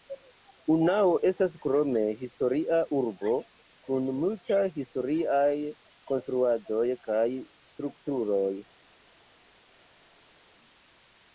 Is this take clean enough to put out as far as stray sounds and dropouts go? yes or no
yes